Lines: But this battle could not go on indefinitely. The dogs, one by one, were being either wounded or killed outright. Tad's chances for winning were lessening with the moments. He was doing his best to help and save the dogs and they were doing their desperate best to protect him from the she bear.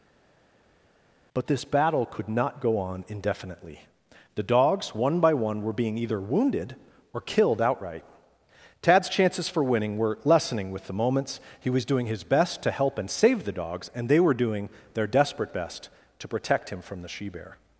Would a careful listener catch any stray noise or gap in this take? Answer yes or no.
no